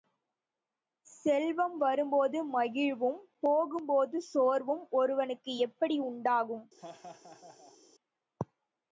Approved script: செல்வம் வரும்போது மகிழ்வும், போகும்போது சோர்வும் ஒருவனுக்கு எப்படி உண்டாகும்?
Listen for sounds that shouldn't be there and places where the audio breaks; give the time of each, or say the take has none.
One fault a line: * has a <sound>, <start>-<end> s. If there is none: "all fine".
* has a laugh, 6.8-7.8 s